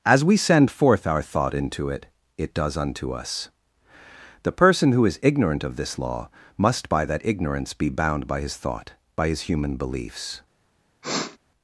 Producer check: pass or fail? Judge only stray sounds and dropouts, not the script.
fail